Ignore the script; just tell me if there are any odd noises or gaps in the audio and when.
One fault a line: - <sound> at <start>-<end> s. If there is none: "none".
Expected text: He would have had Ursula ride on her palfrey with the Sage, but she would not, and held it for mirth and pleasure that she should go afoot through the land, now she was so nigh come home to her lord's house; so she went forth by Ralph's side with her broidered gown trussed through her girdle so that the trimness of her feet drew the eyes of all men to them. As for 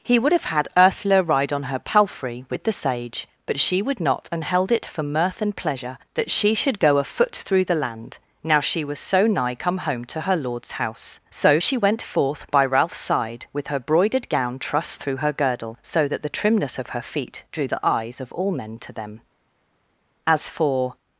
none